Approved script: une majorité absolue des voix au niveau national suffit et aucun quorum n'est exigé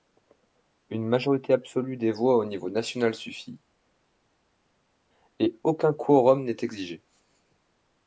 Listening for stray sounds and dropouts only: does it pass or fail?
pass